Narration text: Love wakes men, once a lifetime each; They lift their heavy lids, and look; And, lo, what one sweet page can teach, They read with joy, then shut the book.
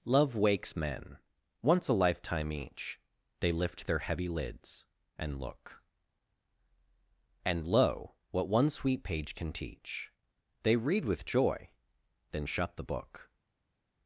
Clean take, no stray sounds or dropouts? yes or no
yes